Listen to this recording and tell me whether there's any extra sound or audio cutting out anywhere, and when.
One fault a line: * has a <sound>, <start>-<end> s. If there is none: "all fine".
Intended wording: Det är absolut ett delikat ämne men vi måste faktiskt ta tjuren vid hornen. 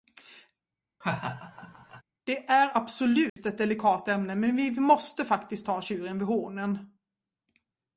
* has a laugh, 1.0-2.0 s
* has a dropout, 3.3-3.4 s